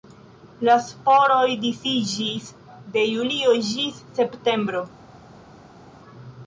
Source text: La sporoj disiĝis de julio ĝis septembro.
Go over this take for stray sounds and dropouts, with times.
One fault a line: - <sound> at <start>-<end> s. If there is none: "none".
none